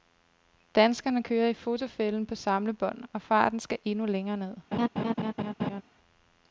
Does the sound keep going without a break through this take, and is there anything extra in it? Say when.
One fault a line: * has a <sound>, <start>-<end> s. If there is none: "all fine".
* has a laugh, 4.7-5.8 s